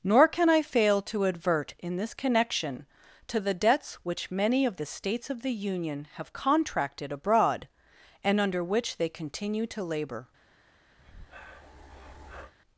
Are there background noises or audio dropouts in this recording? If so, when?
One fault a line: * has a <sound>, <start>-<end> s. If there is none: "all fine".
* has a breath, 11.0-12.5 s